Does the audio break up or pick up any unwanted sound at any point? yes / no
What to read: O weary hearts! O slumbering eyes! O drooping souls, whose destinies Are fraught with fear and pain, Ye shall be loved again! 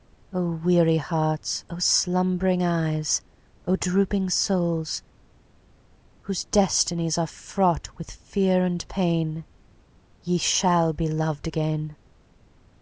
no